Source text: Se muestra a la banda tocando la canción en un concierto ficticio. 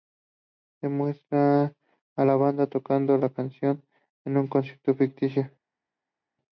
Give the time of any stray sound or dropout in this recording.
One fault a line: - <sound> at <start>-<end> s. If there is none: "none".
none